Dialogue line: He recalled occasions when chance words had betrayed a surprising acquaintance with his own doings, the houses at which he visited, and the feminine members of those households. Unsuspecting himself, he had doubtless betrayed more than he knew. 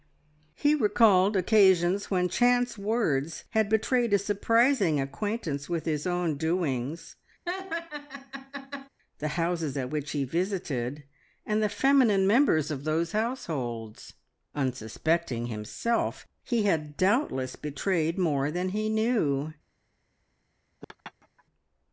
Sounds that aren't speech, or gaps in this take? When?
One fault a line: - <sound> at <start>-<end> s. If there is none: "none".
- laugh at 7.5-8.9 s
- laugh at 20.8-21.4 s